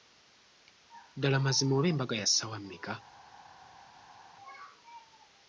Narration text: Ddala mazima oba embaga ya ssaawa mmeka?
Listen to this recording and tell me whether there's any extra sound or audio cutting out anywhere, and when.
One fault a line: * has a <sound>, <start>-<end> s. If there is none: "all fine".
all fine